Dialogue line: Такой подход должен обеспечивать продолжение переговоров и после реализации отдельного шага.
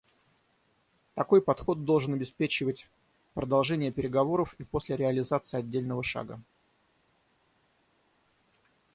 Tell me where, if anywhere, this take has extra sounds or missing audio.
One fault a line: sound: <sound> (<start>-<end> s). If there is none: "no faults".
no faults